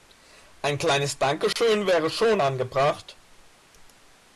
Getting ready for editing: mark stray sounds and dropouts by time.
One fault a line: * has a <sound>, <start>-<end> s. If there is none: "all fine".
* has a dropout, 1.5-1.6 s